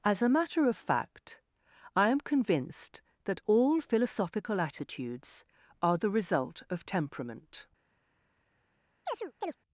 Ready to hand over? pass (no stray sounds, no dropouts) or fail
fail